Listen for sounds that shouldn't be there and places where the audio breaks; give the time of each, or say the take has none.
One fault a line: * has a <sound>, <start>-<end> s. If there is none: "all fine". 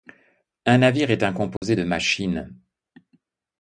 * has a dropout, 1.6-1.6 s